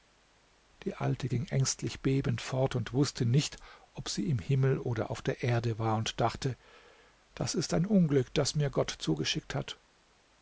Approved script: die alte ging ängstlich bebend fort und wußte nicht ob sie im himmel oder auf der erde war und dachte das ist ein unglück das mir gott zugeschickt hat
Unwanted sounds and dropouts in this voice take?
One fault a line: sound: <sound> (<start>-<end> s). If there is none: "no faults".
no faults